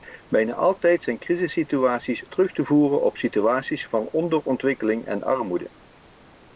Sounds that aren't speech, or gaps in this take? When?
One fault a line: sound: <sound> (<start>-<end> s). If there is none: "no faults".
no faults